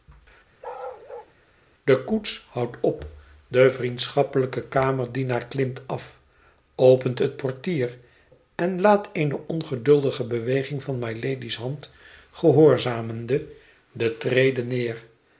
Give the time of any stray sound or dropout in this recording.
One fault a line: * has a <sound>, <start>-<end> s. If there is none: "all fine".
* has a bark, 0.6-1.3 s